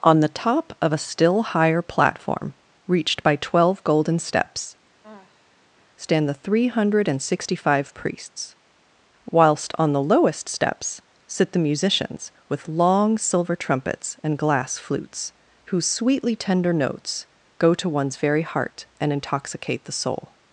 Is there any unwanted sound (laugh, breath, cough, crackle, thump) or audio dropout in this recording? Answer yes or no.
yes